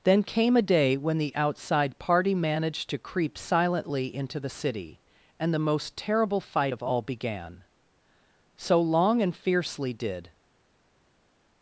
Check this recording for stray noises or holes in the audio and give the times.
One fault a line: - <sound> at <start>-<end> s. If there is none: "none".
none